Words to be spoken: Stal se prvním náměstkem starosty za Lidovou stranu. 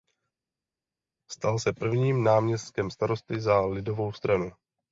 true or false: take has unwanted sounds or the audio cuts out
false